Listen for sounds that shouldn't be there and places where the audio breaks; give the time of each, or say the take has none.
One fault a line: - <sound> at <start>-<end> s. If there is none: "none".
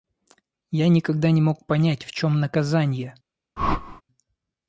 - whoosh at 3.6-4.0 s